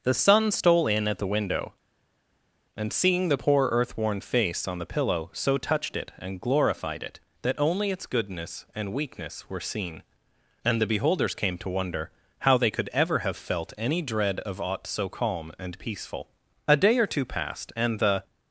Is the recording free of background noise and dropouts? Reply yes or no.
yes